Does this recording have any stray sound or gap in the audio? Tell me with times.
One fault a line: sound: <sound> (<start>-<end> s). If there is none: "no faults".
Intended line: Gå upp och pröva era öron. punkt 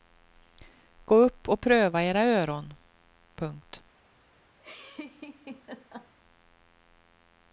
sound: laugh (4.6-6.1 s)